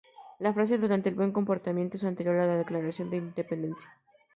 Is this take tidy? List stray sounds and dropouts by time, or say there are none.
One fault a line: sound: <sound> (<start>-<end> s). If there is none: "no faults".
no faults